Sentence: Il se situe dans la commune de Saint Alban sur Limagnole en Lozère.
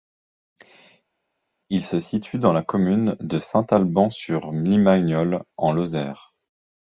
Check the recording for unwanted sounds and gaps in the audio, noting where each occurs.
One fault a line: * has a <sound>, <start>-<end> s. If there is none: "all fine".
all fine